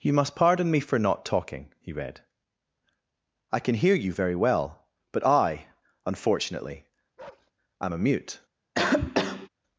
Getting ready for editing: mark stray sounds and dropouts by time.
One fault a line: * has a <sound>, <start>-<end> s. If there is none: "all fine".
* has a bark, 7.2-7.5 s
* has a cough, 8.7-9.5 s